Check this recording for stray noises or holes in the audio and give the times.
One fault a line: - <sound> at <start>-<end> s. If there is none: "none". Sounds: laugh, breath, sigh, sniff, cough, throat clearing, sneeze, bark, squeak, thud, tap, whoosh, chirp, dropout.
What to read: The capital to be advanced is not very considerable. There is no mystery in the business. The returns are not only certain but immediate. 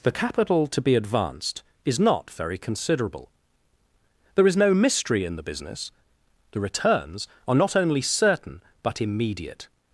none